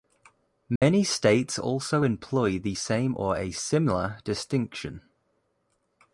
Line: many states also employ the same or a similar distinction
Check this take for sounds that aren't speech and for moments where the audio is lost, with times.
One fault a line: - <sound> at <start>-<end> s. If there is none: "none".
- dropout at 0.8-0.8 s